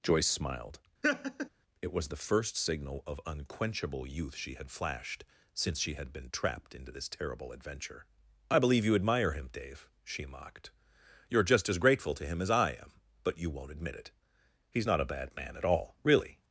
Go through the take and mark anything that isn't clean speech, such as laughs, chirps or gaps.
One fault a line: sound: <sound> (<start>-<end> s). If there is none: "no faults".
sound: laugh (1.0-1.5 s)